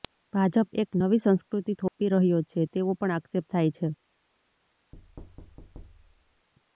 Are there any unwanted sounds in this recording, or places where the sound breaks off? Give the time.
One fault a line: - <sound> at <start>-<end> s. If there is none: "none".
- dropout at 1.9-2.0 s
- thud at 4.9-6.5 s